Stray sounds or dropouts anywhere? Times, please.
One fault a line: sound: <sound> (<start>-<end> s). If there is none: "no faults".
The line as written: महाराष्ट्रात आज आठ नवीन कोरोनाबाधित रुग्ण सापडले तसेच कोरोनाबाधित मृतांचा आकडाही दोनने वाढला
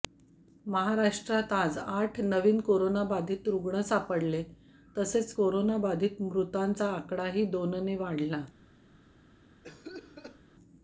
sound: cough (9.6-10.4 s)